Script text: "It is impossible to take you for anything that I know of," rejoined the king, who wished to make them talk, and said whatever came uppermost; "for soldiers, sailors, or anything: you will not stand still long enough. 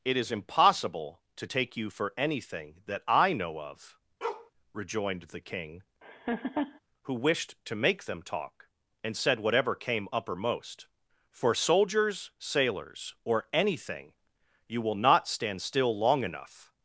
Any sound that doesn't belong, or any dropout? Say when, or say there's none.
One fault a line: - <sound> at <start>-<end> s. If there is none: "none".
- bark at 4.2-4.5 s
- laugh at 6.0-6.8 s